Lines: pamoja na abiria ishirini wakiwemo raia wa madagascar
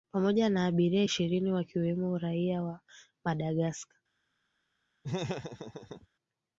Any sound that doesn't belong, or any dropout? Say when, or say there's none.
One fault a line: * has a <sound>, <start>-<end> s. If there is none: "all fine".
* has a laugh, 5.0-6.1 s